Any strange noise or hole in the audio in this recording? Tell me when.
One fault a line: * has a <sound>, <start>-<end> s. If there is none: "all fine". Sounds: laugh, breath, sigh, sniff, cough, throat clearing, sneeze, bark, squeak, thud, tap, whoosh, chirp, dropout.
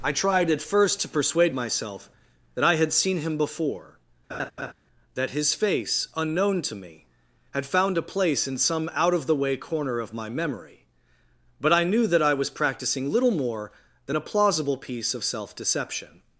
* has a laugh, 4.3-4.7 s